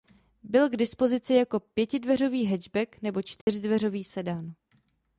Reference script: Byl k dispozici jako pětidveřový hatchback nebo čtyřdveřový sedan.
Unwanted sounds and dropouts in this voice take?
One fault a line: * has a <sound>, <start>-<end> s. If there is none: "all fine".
* has a dropout, 3.4-3.5 s